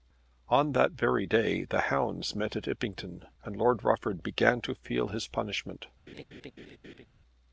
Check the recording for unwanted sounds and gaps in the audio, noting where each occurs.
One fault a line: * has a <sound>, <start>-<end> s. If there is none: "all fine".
* has a laugh, 6.1-7.1 s